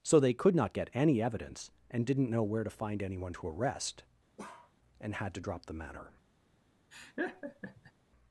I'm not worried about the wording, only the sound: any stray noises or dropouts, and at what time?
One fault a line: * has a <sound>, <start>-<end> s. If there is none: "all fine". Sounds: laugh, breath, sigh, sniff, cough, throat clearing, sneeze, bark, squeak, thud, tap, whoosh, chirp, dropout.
* has a bark, 4.4-4.7 s
* has a laugh, 6.9-7.9 s